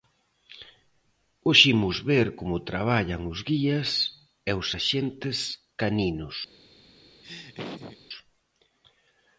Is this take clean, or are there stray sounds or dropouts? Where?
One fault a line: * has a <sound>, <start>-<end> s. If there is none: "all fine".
* has a laugh, 7.2-8.0 s